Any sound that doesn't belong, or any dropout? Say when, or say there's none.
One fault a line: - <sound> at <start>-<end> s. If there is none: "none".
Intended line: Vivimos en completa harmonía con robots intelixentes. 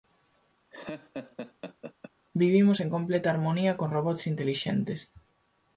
- laugh at 0.7-2.1 s